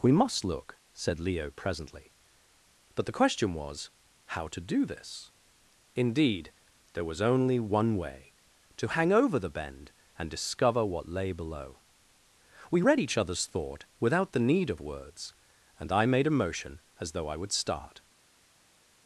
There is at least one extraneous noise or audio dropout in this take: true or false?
false